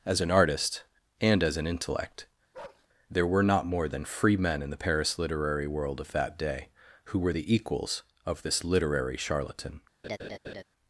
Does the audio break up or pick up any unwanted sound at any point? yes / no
yes